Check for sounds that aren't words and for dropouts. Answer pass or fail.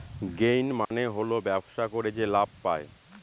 fail